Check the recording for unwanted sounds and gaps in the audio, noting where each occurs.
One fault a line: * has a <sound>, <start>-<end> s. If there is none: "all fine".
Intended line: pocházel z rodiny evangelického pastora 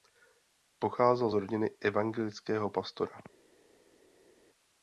all fine